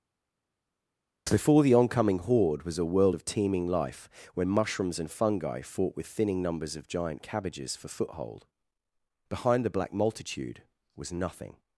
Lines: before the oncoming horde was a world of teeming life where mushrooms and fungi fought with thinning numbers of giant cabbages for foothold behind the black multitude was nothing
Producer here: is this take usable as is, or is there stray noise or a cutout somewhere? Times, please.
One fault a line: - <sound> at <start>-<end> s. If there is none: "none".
none